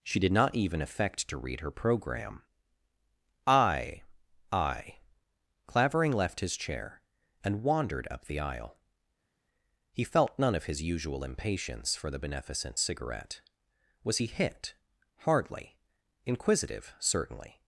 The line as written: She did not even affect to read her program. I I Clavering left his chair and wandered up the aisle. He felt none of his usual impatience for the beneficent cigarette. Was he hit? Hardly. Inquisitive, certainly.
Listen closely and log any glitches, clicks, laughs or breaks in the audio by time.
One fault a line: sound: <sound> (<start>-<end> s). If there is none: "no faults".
no faults